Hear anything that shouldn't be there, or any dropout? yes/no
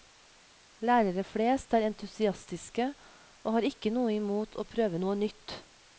no